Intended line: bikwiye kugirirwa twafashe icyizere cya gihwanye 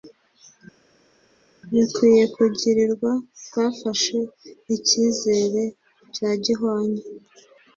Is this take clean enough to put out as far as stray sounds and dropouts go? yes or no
yes